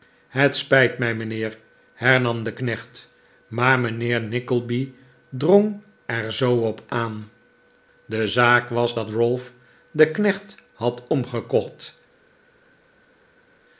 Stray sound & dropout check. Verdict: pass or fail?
pass